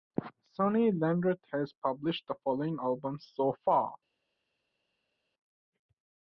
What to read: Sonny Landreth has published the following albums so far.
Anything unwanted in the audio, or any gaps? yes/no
no